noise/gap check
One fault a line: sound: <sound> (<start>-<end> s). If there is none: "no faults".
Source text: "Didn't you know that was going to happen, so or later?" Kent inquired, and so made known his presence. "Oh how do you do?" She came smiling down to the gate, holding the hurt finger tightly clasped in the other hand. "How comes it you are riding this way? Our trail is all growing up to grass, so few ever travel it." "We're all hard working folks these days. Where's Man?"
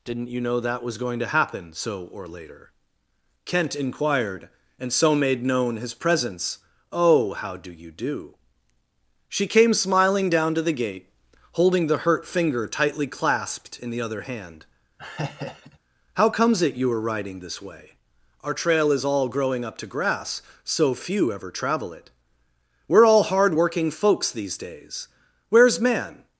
sound: laugh (15.0-15.8 s)